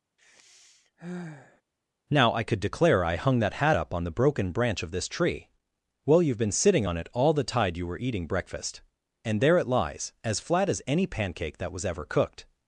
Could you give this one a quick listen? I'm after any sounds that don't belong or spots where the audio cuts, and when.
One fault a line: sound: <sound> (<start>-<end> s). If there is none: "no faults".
sound: sigh (0.2-1.6 s)